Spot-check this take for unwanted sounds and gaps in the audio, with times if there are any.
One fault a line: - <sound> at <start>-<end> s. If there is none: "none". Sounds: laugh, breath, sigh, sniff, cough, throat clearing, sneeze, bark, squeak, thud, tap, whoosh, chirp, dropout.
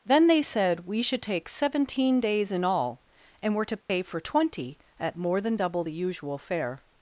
- dropout at 3.8-3.9 s